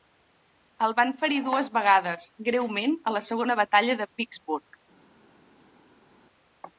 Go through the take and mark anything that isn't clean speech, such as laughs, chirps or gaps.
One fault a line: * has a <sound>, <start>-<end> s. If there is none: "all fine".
all fine